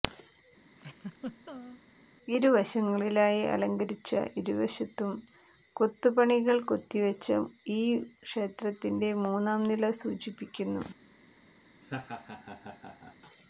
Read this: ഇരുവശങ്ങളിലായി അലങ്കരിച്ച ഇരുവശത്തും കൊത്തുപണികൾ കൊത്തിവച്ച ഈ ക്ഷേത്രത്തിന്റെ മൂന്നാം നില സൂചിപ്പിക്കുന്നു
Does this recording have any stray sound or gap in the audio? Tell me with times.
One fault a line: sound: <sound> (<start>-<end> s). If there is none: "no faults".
sound: laugh (0.7-1.8 s)
sound: laugh (11.8-13.2 s)